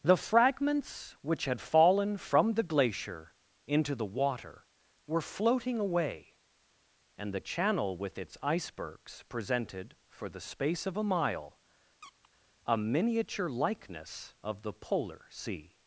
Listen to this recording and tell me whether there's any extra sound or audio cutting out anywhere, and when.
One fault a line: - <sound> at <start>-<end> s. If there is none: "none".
- squeak at 12.0-12.3 s